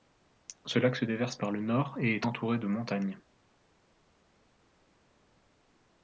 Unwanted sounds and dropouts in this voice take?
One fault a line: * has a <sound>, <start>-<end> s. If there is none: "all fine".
all fine